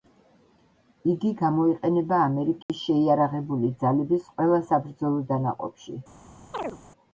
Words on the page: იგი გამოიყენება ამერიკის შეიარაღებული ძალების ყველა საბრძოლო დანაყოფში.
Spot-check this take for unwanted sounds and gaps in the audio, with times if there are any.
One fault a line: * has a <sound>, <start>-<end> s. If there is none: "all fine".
* has a dropout, 2.6-2.7 s
* has a chirp, 6.5-6.8 s